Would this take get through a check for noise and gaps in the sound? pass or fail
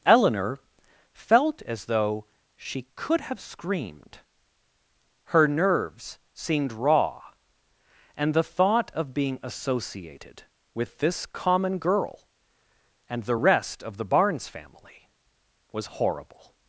pass